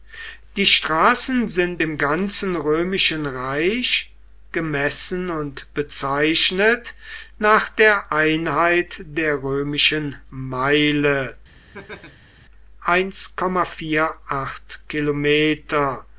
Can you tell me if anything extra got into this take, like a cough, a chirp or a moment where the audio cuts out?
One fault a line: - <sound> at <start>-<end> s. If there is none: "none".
- laugh at 11.7-12.3 s